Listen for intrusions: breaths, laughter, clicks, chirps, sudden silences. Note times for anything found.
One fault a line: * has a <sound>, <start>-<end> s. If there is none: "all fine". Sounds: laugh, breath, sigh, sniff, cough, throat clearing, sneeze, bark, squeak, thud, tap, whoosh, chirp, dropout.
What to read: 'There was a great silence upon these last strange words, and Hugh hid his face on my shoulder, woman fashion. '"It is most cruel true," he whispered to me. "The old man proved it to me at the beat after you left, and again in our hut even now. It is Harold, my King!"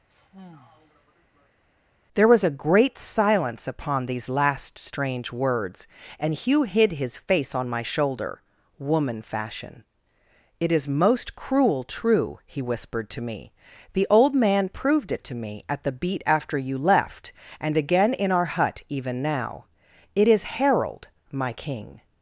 * has a sigh, 0.1-1.6 s